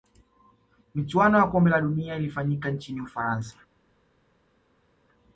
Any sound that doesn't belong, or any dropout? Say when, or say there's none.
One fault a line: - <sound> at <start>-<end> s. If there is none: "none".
none